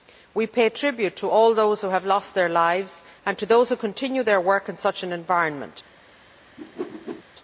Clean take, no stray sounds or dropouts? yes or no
no